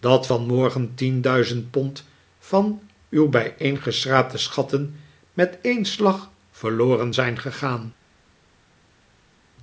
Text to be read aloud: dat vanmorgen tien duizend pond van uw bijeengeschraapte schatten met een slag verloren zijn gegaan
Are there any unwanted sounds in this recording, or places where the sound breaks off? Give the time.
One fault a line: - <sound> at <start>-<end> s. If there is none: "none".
none